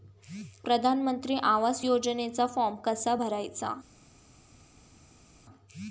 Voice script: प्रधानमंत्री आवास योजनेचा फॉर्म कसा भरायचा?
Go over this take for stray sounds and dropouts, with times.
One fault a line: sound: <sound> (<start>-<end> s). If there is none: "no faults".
no faults